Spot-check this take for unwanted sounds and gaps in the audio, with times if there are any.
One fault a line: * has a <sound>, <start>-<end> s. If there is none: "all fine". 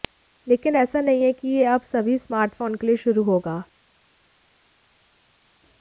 all fine